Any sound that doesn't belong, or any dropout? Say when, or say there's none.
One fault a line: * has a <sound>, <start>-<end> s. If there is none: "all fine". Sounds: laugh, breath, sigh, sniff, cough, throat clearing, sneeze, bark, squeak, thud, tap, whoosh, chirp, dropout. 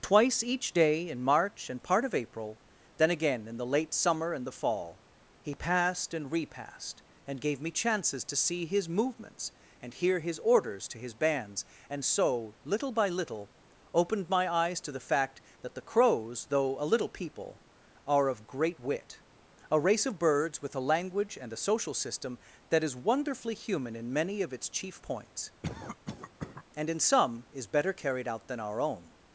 * has a cough, 25.6-26.6 s